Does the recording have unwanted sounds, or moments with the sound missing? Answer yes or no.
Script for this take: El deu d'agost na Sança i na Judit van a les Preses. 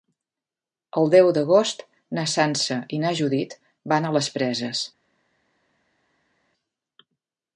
no